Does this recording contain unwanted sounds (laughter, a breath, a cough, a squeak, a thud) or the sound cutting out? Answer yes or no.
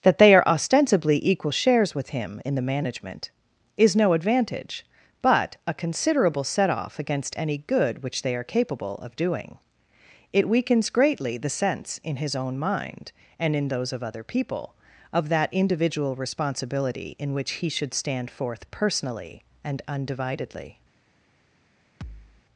yes